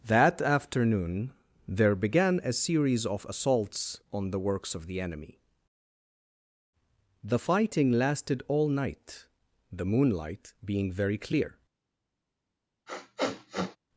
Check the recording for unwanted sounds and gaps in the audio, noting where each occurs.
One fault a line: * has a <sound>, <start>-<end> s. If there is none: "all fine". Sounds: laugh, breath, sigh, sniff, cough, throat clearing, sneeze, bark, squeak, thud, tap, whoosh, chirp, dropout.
* has a sniff, 12.9-13.8 s